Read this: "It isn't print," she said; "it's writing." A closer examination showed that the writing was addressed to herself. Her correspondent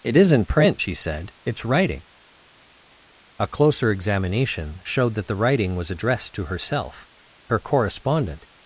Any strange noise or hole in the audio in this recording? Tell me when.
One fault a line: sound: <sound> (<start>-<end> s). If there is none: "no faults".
no faults